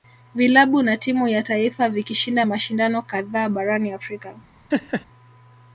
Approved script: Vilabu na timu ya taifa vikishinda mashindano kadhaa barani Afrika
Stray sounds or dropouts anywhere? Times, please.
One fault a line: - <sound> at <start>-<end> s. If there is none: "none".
- laugh at 4.7-5.1 s